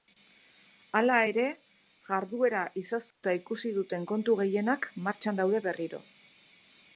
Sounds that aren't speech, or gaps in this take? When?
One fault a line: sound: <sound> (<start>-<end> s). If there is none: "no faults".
sound: dropout (3.1-3.2 s)